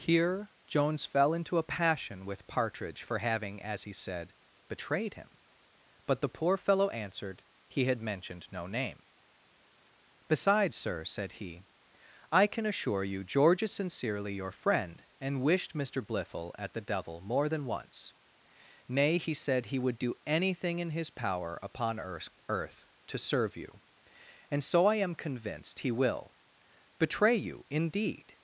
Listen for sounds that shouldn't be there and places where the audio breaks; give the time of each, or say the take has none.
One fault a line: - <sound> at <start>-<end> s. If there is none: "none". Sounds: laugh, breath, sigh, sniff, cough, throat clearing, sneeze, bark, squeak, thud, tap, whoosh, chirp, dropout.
none